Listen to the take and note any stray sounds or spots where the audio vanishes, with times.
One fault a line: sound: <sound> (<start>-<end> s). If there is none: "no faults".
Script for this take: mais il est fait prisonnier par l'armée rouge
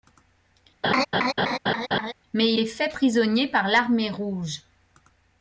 sound: laugh (0.8-2.1 s)